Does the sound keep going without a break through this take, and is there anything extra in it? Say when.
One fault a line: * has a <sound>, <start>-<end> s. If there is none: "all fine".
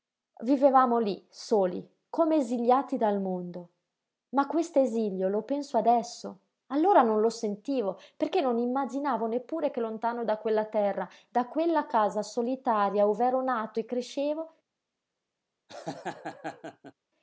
* has a laugh, 15.7-16.9 s